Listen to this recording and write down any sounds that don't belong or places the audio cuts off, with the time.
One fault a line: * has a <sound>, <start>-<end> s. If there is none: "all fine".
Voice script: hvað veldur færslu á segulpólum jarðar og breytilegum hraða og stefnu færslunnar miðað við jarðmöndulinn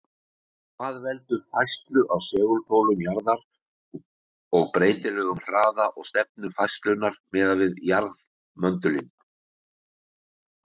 all fine